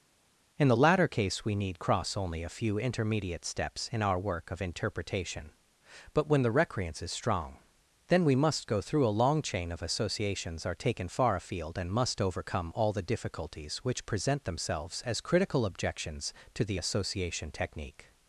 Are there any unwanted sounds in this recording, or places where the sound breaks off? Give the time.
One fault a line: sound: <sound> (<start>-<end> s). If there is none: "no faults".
no faults